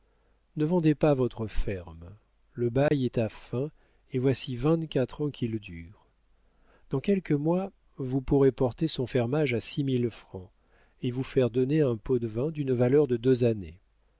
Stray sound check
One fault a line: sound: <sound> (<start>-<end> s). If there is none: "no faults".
sound: dropout (2.9-2.9 s)